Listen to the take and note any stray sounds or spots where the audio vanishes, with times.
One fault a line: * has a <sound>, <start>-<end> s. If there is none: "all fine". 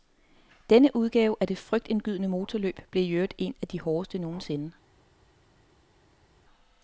all fine